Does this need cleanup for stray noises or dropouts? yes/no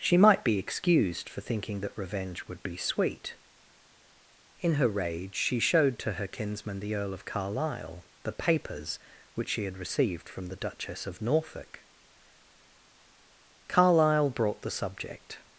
no